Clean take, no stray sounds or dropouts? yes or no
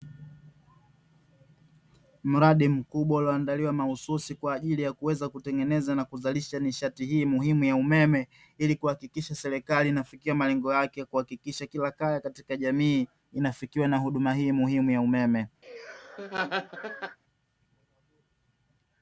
no